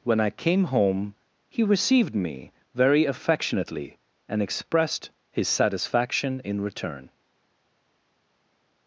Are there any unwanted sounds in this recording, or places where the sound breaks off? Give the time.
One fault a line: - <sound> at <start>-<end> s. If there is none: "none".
none